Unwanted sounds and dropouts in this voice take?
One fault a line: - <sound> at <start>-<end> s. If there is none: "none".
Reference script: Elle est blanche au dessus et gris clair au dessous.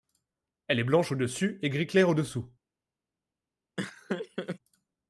- laugh at 3.8-4.6 s